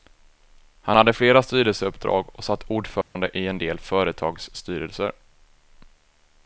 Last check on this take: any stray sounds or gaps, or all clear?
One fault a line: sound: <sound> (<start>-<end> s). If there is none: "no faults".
sound: dropout (3.0-3.2 s)